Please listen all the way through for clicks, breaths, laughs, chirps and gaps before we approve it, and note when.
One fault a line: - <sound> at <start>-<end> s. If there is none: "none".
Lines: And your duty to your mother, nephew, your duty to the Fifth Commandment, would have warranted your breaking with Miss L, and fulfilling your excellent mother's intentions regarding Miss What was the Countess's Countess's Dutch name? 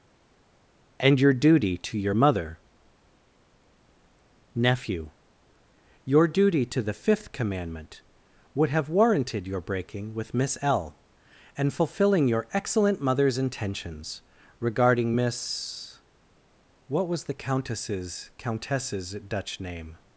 none